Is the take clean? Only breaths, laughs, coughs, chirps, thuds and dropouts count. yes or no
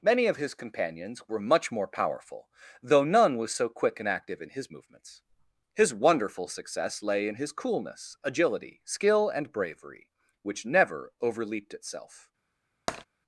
no